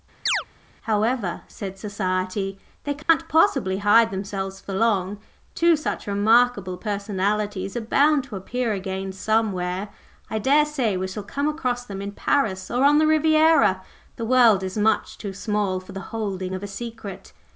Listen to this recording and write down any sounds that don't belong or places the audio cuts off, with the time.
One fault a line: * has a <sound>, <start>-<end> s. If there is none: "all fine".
* has a chirp, 0.3-0.4 s
* has a dropout, 3.0-3.1 s